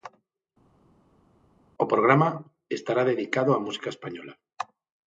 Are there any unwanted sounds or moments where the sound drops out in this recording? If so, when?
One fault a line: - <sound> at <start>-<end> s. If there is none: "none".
none